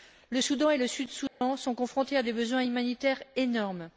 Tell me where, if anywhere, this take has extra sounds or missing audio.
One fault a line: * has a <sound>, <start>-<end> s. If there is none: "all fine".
* has a dropout, 1.3-1.4 s